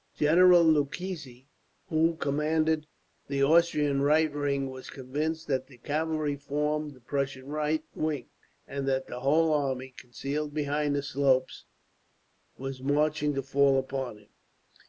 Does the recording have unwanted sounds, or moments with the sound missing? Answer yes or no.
no